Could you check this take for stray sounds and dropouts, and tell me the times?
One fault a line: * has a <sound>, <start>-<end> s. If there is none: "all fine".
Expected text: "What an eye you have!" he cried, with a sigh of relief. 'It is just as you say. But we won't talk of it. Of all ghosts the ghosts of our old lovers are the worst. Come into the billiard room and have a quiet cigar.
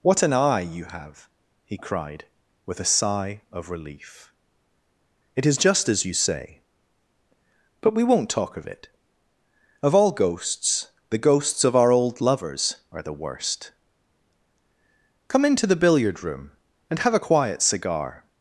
all fine